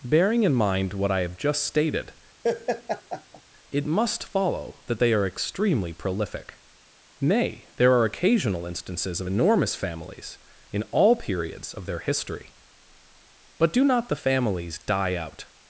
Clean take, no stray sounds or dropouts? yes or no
no